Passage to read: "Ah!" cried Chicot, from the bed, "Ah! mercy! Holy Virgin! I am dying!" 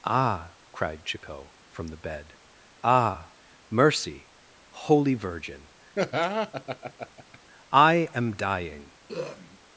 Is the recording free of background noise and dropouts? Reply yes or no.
no